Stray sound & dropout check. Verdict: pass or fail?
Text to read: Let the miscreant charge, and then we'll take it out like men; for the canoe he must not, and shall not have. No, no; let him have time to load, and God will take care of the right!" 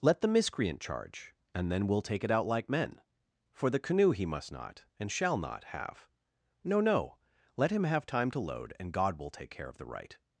pass